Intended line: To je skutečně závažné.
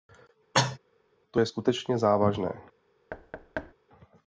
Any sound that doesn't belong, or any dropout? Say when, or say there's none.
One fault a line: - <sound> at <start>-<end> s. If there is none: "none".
- cough at 0.5-0.8 s
- thud at 3.1-3.7 s